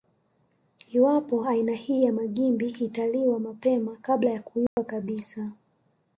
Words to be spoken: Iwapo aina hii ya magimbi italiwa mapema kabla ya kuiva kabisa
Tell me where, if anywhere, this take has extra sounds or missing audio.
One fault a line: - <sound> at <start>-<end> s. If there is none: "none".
- dropout at 4.7-4.8 s